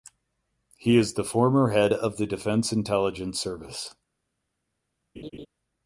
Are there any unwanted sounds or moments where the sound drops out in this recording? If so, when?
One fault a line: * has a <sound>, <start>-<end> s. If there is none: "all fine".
* has a laugh, 5.2-5.5 s